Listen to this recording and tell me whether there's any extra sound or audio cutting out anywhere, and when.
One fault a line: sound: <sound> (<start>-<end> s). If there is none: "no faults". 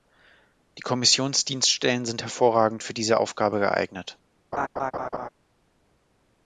sound: laugh (4.5-5.3 s)